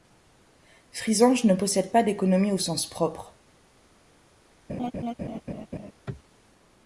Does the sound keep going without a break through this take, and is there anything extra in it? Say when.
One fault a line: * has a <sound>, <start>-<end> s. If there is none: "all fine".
* has a laugh, 4.7-5.9 s